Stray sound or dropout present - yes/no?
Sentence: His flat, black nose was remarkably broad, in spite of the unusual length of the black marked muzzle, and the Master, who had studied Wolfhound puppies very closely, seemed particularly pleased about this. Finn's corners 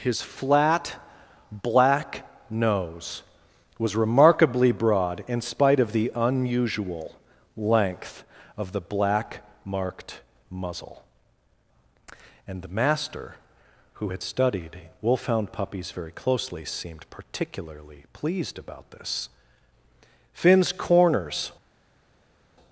no